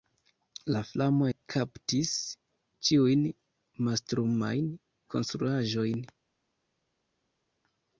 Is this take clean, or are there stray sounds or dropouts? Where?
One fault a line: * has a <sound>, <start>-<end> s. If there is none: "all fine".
all fine